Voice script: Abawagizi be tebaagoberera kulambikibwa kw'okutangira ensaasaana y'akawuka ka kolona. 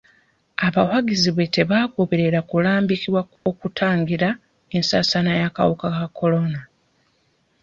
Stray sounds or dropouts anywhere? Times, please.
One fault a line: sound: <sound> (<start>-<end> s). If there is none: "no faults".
sound: dropout (3.4-3.5 s)